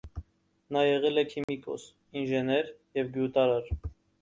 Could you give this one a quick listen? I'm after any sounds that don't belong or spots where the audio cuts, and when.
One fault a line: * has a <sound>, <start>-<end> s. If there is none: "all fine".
* has a dropout, 1.4-1.5 s